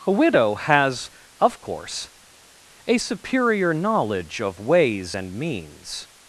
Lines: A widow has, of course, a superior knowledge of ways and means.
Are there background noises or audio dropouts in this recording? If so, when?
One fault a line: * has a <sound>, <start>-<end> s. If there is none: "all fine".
all fine